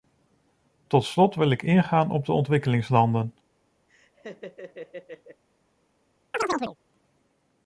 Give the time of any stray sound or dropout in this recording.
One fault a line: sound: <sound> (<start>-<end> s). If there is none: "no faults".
sound: laugh (3.9-5.4 s)
sound: chirp (6.3-6.8 s)